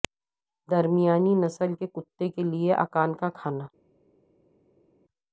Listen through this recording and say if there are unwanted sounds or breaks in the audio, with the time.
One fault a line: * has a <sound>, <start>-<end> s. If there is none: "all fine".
all fine